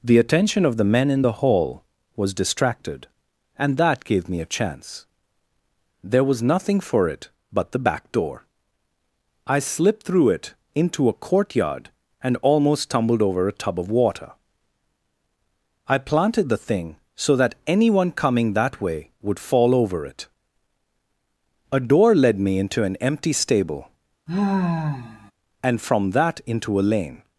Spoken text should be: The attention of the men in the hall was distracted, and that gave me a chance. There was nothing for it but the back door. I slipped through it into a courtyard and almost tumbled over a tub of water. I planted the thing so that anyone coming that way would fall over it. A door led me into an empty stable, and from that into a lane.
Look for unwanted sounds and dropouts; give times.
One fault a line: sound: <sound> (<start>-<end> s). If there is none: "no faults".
sound: sigh (24.3-25.3 s)